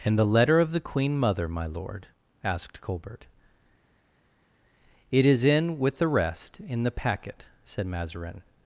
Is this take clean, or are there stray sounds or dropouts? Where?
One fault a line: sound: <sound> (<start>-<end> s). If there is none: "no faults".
no faults